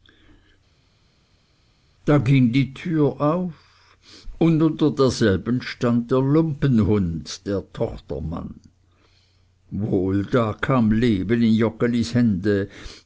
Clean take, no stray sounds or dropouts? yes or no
yes